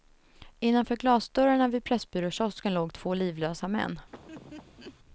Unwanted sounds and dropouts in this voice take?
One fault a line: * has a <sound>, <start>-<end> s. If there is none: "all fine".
* has a laugh, 4.1-5.0 s